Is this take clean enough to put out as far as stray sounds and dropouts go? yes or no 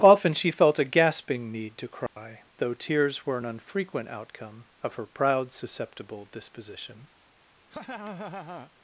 no